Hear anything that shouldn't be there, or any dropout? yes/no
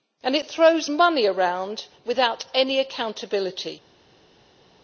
no